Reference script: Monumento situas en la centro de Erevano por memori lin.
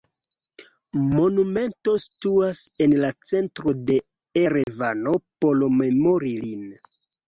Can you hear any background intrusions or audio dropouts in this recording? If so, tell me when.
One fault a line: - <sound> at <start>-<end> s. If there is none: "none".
- dropout at 4.6-4.7 s